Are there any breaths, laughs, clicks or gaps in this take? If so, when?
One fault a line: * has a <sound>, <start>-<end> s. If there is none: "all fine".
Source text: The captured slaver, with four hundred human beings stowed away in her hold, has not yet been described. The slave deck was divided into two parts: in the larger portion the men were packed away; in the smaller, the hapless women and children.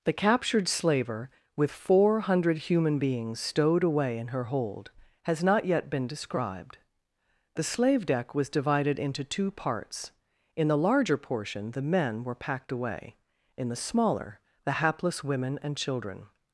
all fine